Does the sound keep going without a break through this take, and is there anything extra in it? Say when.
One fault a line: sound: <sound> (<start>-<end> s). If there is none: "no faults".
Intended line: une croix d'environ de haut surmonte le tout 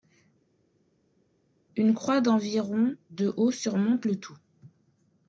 no faults